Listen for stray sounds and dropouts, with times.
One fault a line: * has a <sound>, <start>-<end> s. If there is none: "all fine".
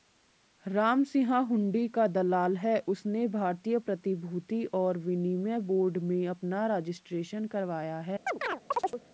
* has a chirp, 8.3-9.0 s